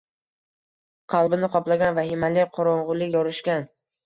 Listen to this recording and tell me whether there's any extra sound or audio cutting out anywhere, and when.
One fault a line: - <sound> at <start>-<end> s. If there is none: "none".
none